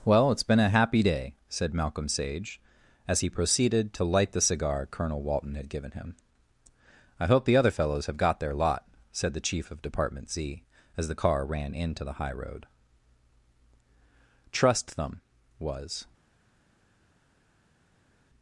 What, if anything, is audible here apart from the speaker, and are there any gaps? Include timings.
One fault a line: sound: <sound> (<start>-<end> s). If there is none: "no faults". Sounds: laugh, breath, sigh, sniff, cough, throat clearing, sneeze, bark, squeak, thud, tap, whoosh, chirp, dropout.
no faults